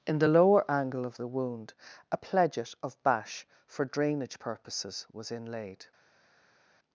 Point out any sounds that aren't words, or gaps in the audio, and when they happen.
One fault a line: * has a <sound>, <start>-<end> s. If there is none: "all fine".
all fine